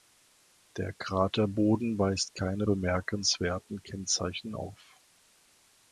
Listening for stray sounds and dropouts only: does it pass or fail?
pass